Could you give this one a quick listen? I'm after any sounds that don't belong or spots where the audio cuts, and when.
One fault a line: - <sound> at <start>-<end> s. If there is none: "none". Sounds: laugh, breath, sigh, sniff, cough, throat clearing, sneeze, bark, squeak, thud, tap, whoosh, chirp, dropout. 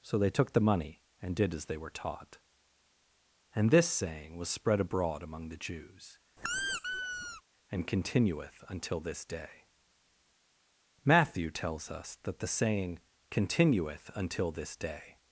- squeak at 6.4-7.4 s